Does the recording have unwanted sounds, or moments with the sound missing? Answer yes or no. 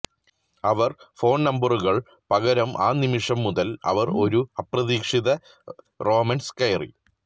no